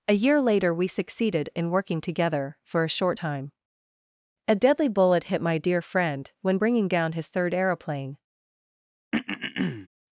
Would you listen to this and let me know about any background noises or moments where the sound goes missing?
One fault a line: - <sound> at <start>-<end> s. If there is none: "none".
- throat clearing at 9.1-9.9 s